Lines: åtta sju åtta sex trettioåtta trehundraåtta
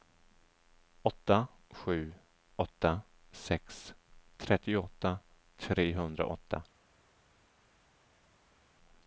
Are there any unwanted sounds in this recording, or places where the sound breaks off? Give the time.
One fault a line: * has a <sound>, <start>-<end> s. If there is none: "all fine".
all fine